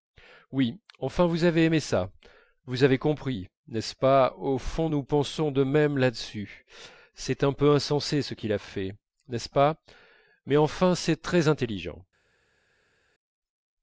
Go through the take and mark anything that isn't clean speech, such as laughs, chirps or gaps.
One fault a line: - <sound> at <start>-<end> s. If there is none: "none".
none